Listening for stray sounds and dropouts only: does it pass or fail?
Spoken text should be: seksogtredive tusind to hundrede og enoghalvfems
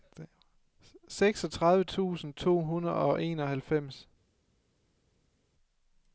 pass